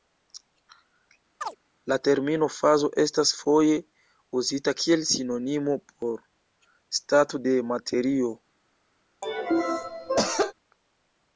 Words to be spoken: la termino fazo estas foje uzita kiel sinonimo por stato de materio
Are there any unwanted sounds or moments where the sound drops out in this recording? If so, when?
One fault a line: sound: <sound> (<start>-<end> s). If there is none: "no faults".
sound: chirp (1.4-1.6 s)
sound: cough (9.2-10.5 s)